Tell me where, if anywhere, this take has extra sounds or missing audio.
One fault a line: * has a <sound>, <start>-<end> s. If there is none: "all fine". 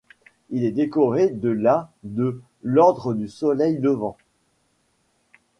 all fine